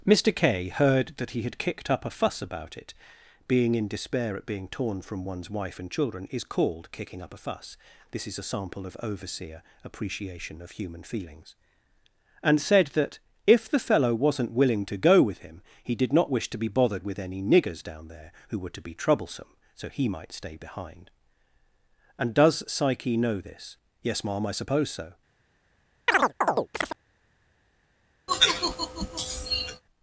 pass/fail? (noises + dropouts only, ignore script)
fail